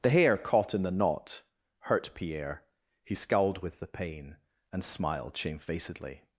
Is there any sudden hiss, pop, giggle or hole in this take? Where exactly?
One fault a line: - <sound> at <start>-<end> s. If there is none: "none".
none